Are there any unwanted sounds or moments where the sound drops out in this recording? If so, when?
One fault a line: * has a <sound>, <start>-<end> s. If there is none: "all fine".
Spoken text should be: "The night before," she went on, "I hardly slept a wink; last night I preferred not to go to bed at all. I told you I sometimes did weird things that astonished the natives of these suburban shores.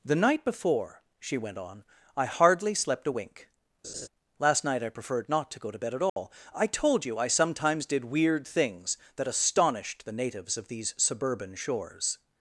* has a laugh, 3.8-4.1 s
* has a dropout, 6.1-6.2 s